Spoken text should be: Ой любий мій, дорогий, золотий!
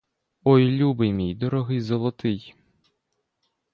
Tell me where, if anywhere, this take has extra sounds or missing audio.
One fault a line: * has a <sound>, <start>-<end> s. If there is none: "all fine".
all fine